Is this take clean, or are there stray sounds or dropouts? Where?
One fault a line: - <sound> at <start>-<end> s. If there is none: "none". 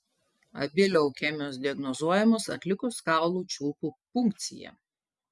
none